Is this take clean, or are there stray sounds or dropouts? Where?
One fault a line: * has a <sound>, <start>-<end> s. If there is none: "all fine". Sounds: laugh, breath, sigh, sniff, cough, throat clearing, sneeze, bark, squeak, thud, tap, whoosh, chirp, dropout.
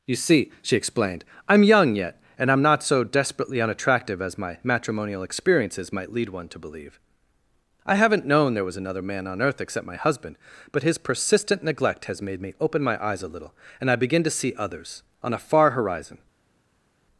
all fine